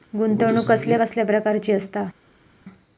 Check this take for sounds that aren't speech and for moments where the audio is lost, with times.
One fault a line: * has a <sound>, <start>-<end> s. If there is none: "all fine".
all fine